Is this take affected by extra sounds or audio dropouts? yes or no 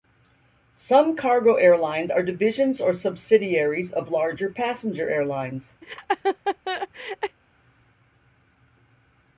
yes